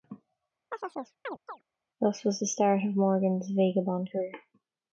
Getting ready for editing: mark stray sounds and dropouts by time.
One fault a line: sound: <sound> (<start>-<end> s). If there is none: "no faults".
sound: chirp (0.7-1.6 s)